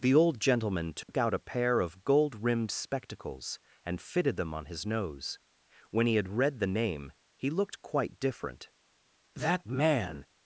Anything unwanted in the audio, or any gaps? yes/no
yes